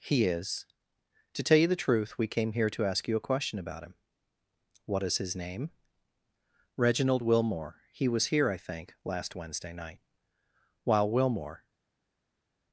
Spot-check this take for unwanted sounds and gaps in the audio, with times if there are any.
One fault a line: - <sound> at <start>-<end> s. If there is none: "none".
none